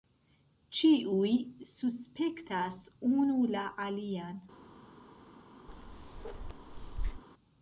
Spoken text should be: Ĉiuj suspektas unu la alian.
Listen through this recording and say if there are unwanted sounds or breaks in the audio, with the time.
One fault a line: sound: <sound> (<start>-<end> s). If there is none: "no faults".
sound: bark (5.7-7.2 s)